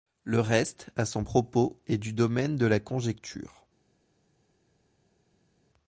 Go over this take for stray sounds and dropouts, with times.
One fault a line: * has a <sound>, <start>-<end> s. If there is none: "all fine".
all fine